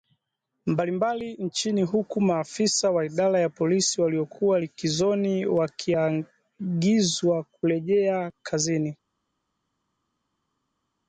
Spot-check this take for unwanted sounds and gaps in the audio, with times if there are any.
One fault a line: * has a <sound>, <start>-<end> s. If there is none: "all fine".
all fine